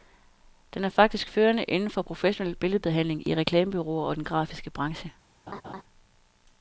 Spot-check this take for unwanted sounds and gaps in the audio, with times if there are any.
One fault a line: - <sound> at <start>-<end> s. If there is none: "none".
- laugh at 5.5-5.8 s